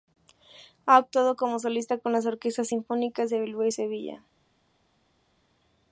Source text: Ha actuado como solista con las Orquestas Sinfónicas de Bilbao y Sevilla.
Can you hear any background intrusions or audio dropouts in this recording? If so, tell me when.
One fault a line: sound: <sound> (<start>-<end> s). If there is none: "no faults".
no faults